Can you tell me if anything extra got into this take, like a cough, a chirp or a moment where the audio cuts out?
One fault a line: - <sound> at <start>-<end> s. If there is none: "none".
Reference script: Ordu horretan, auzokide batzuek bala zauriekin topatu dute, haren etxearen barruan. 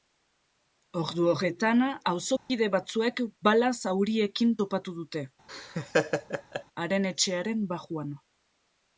- dropout at 2.4-2.5 s
- laugh at 5.5-6.6 s